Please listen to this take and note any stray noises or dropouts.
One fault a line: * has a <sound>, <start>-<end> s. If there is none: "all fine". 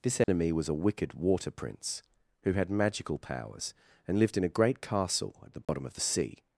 * has a dropout, 0.2-0.3 s
* has a dropout, 5.6-5.7 s